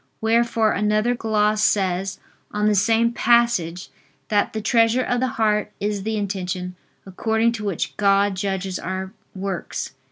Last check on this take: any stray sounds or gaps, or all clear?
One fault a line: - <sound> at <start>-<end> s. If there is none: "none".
none